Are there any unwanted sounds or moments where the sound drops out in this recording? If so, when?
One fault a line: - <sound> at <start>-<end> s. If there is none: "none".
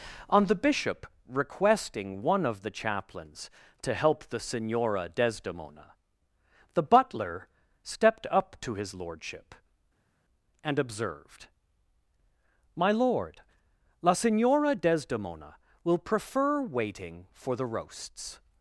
none